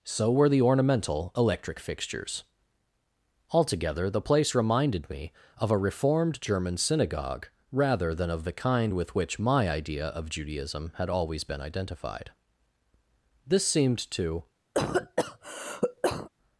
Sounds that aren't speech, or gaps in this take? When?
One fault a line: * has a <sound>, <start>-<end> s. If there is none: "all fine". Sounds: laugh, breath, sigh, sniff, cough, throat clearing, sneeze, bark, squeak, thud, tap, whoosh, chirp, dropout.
* has a cough, 14.7-16.3 s